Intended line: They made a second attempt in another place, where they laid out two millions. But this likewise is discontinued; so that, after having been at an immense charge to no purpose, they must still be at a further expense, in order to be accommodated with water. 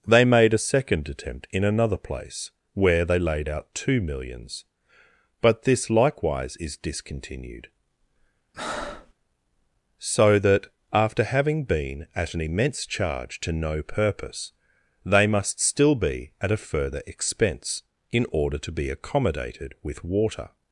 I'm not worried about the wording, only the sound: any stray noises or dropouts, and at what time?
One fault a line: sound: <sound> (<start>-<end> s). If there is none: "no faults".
sound: breath (8.5-9.1 s)